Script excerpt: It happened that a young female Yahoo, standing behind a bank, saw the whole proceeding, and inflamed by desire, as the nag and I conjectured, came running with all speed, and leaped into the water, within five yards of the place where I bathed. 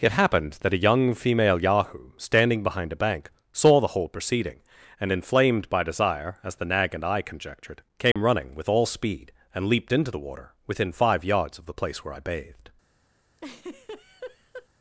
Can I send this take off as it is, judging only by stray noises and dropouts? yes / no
no